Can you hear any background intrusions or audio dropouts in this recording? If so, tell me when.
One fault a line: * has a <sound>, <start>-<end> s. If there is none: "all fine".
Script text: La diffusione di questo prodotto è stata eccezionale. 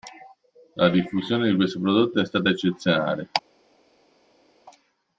all fine